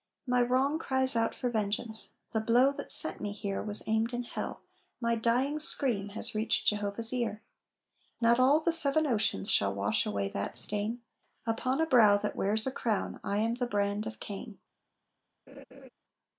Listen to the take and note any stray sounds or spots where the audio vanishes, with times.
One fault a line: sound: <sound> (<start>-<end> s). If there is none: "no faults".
sound: laugh (15.5-15.9 s)